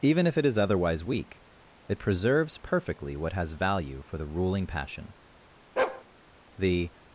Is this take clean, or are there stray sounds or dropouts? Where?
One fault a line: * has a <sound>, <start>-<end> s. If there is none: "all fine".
* has a bark, 5.8-6.0 s